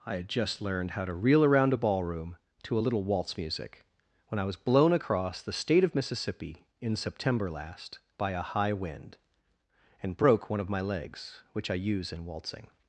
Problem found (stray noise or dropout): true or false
false